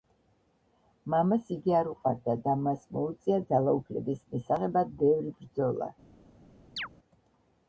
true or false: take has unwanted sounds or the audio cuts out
true